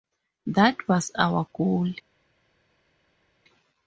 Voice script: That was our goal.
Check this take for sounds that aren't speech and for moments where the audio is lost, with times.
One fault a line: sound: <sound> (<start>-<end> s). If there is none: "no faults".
no faults